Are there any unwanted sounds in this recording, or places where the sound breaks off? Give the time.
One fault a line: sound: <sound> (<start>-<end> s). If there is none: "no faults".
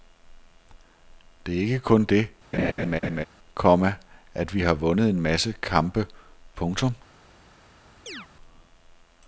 sound: laugh (2.5-3.2 s)
sound: chirp (8.1-8.3 s)